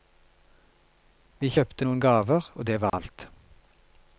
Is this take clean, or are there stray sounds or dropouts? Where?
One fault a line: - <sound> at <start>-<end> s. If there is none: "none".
- dropout at 2.9-2.9 s